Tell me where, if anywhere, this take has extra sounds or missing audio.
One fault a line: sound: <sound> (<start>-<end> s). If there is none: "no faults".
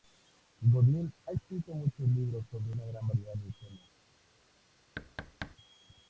sound: thud (5.0-5.6 s)